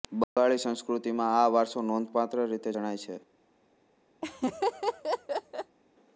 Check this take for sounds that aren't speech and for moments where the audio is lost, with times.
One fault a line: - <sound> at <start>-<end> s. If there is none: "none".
- dropout at 0.2-0.4 s
- laugh at 4.2-5.8 s